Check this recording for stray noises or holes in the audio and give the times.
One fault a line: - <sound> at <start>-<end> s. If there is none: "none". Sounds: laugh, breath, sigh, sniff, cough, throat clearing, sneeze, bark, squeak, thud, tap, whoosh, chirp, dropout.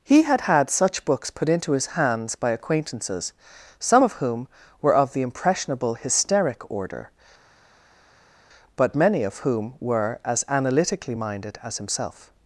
none